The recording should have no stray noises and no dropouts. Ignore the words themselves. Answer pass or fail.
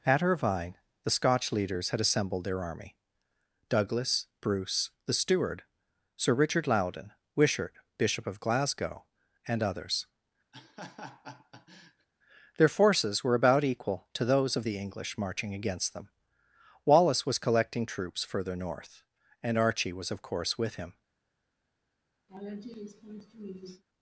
fail